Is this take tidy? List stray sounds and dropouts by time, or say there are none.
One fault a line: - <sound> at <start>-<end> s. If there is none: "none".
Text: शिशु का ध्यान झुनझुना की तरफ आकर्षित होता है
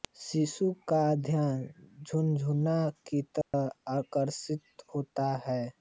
- dropout at 3.4-3.5 s